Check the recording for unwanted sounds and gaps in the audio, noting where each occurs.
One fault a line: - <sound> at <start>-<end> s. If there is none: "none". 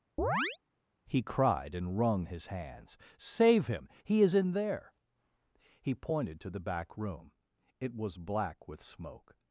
- chirp at 0.2-0.6 s